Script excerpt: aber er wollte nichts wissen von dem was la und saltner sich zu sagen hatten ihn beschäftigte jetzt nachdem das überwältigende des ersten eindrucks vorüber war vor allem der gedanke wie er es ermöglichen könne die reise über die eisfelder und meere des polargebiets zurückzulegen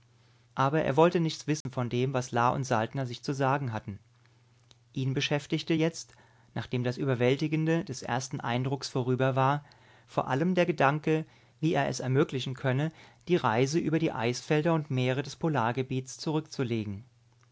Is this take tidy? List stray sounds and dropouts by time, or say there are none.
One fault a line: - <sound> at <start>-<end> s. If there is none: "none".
- dropout at 1.6-1.7 s